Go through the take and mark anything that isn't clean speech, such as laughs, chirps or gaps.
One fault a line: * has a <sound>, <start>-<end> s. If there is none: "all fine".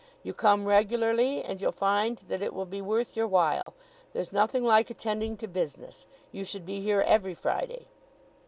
* has a dropout, 3.6-3.7 s